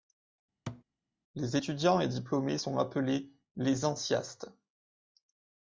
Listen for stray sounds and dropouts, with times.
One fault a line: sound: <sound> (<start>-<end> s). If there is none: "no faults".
sound: thud (0.7-0.8 s)